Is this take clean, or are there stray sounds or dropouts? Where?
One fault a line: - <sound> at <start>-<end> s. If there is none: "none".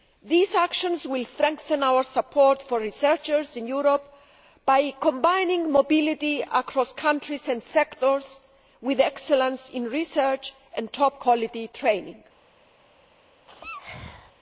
- sneeze at 13.5-14.3 s